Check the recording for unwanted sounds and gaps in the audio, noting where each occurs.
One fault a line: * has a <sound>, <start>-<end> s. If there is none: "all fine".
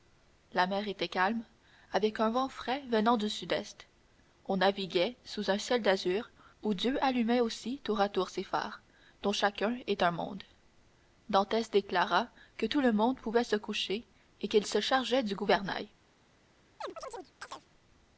* has a chirp, 16.8-17.7 s